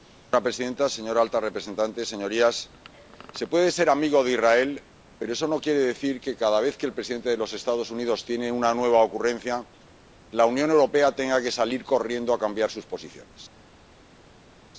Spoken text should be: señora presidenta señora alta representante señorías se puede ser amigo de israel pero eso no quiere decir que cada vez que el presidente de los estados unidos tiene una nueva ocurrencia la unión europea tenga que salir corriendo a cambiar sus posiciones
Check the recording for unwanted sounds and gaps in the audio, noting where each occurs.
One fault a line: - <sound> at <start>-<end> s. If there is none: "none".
none